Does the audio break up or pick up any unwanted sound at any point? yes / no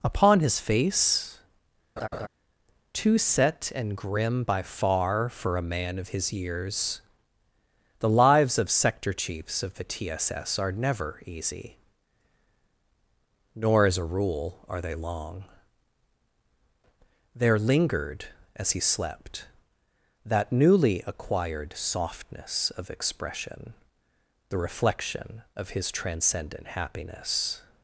yes